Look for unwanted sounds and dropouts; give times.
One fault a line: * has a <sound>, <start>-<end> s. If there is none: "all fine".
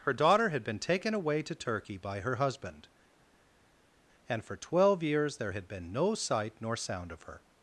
all fine